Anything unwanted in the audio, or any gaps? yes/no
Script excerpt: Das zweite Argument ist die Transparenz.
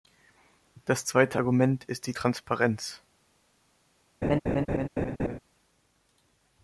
yes